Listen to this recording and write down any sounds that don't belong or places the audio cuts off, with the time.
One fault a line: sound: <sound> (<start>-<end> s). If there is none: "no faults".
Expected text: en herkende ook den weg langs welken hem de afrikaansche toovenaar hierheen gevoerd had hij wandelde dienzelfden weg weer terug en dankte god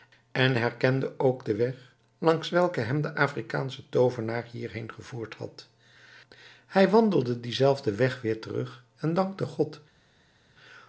no faults